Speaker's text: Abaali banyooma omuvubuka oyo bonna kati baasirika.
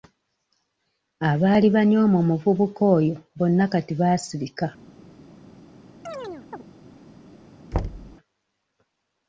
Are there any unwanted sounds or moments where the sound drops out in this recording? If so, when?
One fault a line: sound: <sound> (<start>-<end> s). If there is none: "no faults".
sound: chirp (6.1-6.6 s)
sound: thud (7.7-8.2 s)